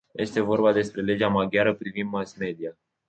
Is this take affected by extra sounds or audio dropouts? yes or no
no